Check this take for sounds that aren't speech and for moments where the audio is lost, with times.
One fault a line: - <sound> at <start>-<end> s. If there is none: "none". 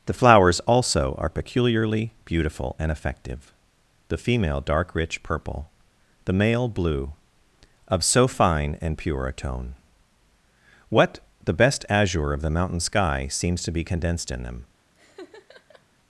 - laugh at 14.9-15.8 s